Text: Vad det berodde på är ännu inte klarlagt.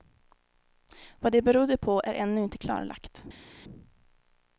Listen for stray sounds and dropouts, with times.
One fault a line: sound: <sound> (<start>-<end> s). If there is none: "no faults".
no faults